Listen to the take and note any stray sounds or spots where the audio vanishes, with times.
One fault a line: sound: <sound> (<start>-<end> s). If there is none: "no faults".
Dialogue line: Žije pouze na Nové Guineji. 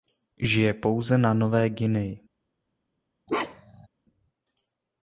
sound: bark (3.3-3.9 s)